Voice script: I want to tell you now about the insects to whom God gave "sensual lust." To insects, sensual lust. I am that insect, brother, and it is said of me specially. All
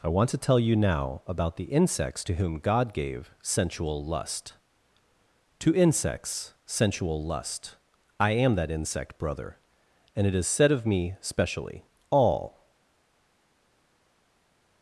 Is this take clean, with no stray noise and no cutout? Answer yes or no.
yes